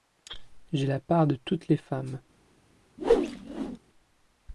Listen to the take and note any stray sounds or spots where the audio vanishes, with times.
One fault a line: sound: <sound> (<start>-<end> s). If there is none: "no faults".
sound: whoosh (3.0-3.8 s)